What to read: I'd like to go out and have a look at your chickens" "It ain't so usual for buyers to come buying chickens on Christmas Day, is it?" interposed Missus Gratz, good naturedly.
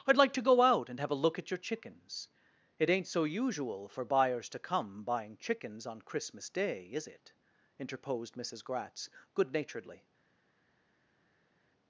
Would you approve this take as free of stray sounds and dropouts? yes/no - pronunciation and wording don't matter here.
yes